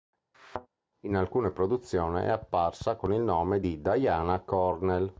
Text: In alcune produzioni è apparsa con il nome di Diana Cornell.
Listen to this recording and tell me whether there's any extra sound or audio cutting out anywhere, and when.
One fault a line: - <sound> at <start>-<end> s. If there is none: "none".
- thud at 0.3-0.7 s